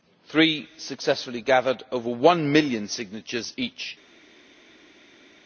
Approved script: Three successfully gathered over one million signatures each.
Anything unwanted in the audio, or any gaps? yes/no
no